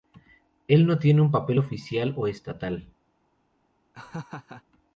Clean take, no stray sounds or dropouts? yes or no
no